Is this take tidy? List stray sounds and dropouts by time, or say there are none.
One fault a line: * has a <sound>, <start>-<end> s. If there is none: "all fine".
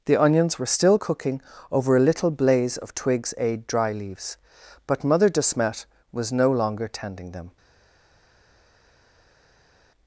all fine